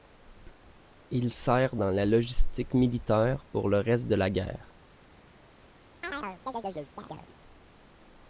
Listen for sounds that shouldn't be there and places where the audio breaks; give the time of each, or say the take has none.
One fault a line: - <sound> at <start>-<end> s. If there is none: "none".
- chirp at 6.0-7.4 s